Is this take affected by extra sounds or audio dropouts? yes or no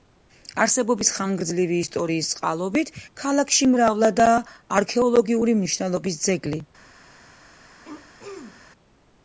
yes